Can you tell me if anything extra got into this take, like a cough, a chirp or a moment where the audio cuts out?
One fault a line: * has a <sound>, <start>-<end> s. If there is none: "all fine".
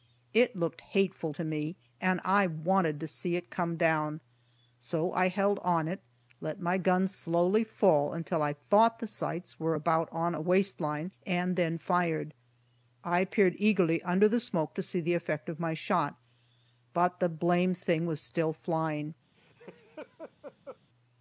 * has a laugh, 19.3-20.8 s